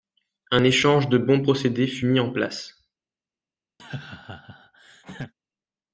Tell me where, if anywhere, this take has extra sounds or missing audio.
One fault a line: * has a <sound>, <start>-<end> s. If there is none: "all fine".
* has a laugh, 3.8-5.3 s